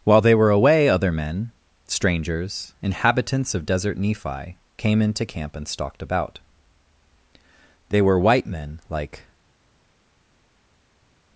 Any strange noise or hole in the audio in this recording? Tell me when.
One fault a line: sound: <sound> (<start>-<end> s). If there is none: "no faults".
no faults